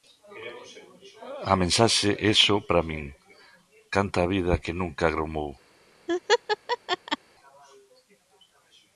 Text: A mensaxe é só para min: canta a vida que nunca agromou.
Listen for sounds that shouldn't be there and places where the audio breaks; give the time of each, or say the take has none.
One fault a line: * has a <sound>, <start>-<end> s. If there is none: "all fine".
* has a laugh, 6.1-7.2 s